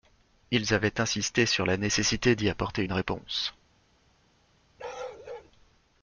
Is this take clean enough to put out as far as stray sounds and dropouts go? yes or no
no